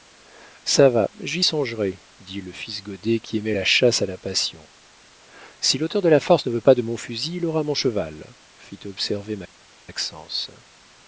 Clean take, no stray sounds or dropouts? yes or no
yes